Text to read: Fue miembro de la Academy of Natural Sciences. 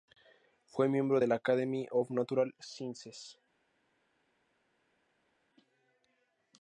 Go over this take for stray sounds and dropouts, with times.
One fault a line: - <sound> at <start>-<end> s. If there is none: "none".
none